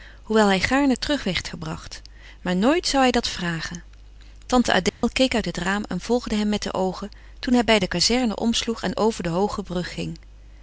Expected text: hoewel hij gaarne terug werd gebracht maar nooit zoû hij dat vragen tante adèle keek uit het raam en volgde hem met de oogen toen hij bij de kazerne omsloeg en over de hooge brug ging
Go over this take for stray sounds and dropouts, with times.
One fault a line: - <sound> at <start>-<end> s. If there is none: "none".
- dropout at 4.9-5.0 s